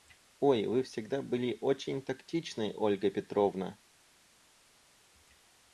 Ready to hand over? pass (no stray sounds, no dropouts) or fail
pass